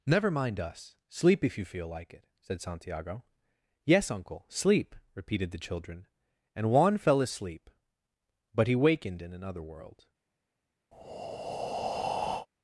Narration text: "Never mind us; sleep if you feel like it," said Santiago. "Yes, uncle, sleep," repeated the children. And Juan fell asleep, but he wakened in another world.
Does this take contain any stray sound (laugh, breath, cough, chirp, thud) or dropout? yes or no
yes